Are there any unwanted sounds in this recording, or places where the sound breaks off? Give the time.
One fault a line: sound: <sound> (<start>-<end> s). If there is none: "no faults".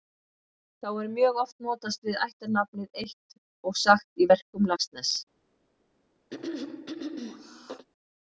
sound: throat clearing (6.3-7.9 s)